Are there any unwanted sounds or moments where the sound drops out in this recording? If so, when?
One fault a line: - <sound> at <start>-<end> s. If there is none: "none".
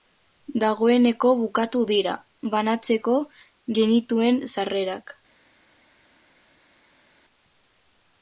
none